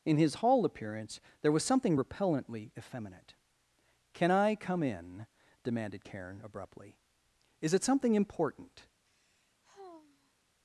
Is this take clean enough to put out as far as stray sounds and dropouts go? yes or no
no